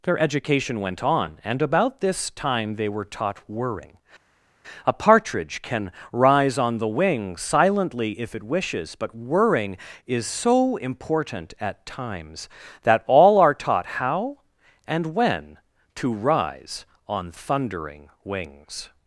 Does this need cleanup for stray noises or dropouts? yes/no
no